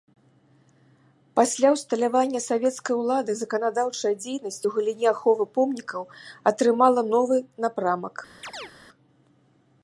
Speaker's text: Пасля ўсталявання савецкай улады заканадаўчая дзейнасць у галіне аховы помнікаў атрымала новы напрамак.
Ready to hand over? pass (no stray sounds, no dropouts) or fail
fail